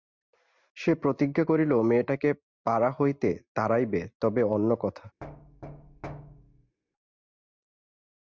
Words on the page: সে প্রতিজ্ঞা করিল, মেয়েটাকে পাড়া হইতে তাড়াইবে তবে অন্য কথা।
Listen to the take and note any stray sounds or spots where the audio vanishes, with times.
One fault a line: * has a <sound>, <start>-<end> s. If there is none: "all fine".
* has a thud, 5.2-6.8 s